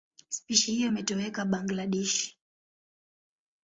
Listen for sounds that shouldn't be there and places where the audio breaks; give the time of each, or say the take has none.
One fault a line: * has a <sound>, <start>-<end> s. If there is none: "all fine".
all fine